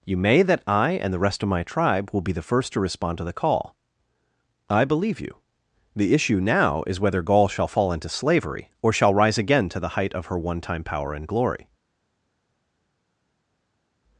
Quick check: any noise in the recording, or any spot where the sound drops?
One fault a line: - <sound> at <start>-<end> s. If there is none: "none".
none